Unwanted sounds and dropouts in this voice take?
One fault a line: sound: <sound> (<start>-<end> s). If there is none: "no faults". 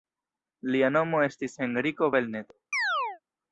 sound: chirp (2.7-3.2 s)